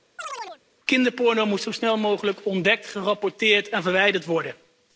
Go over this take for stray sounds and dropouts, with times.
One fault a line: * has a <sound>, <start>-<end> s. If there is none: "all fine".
* has a chirp, 0.2-0.6 s